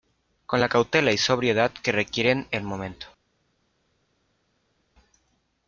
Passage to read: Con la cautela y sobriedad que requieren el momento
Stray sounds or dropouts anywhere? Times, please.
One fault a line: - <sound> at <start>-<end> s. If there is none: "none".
none